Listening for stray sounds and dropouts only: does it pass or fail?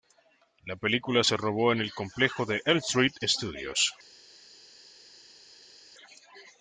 pass